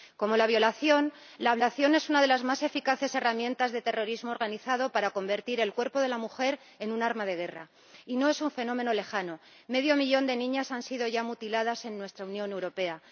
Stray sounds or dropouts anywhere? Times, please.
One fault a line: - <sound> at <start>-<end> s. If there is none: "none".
none